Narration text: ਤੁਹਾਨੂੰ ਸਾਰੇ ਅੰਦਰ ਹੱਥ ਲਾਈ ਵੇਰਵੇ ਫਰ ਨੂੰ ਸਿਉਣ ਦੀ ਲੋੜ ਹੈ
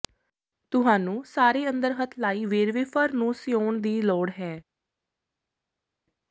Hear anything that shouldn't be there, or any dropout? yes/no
no